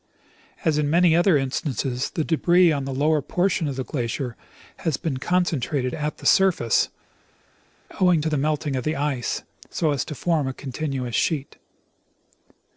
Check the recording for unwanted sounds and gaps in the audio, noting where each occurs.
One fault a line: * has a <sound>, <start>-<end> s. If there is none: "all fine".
all fine